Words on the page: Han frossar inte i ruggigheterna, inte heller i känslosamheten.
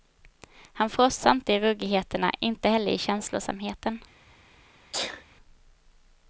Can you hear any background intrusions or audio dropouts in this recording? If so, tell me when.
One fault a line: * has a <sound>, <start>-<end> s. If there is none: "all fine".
* has a sneeze, 4.9-5.2 s